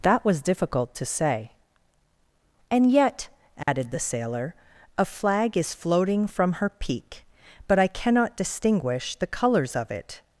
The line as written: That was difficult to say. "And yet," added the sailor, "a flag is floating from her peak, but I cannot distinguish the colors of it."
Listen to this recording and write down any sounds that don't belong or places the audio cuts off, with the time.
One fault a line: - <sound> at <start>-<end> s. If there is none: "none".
- dropout at 3.6-3.7 s